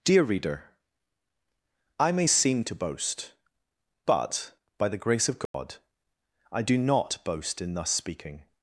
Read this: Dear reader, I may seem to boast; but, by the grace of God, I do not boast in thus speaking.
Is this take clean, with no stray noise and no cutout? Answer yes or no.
no